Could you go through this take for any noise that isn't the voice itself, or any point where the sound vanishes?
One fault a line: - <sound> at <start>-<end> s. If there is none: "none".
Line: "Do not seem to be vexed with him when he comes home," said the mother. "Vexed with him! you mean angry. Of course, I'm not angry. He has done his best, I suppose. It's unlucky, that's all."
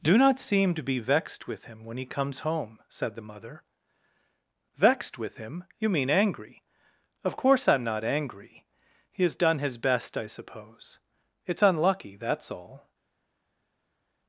none